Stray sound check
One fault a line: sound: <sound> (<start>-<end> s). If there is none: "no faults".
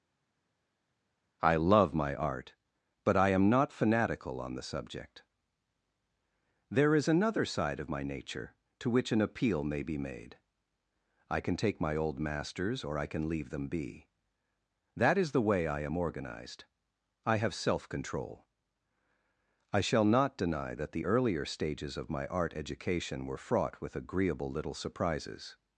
no faults